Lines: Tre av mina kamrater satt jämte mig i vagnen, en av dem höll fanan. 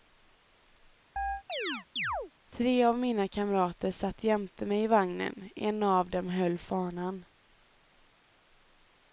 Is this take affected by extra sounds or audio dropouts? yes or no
yes